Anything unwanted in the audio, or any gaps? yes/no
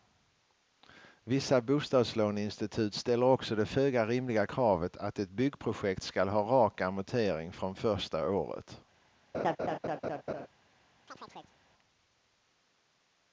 yes